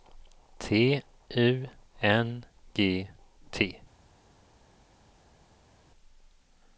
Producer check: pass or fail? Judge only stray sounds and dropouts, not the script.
pass